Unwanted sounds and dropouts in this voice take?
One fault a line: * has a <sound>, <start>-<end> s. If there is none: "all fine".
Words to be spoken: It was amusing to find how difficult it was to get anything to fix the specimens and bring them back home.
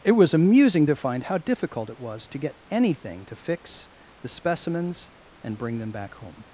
all fine